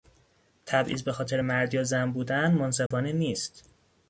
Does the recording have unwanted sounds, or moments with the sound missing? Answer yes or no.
yes